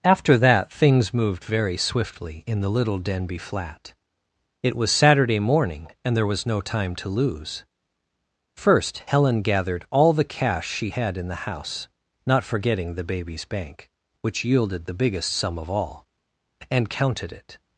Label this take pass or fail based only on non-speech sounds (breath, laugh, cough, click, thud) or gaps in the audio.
pass